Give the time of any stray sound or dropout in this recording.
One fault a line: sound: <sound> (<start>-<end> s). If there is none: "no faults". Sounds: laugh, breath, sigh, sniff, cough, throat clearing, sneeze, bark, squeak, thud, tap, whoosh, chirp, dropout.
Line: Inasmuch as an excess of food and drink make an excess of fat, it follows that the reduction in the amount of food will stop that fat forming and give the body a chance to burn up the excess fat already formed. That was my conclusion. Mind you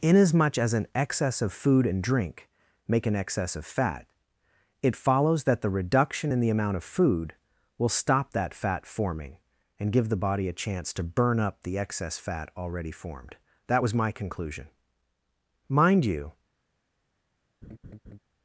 sound: laugh (17.6-18.2 s)